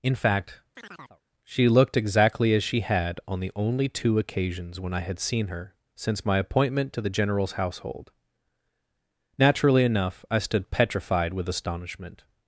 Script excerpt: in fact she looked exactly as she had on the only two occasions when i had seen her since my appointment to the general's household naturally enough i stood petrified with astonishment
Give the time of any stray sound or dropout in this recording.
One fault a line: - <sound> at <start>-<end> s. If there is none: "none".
- chirp at 0.8-1.2 s